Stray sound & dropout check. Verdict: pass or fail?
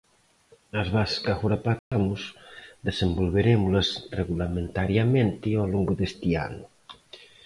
fail